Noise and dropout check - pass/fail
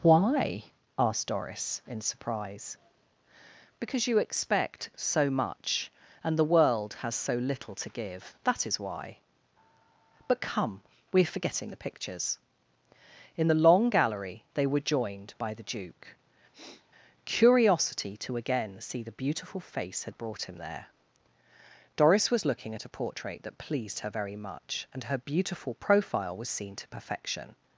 fail